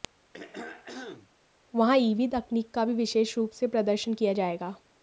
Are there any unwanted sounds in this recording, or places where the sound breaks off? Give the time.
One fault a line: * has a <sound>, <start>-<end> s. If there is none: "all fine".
* has a throat clearing, 0.3-1.3 s